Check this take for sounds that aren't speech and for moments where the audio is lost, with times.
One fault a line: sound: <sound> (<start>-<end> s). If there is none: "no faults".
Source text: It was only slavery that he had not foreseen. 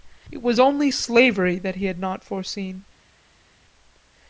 no faults